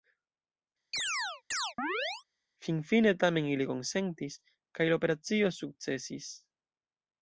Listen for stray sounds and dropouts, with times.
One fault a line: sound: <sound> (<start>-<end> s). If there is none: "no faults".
sound: chirp (0.9-2.2 s)